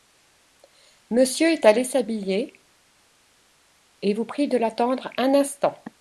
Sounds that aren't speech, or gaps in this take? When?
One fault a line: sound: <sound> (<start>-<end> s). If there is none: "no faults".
no faults